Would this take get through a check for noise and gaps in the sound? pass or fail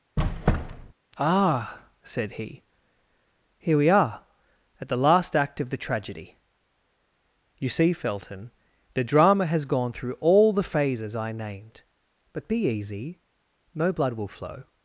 fail